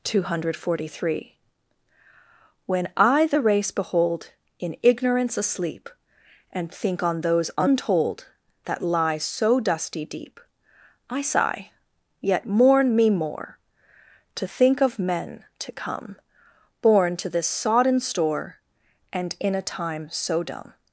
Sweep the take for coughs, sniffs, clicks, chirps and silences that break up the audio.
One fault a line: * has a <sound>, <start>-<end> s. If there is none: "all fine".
all fine